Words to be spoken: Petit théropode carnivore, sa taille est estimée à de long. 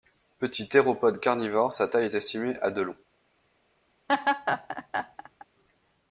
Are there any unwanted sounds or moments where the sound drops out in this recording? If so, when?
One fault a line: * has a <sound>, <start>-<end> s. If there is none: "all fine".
* has a laugh, 4.1-5.5 s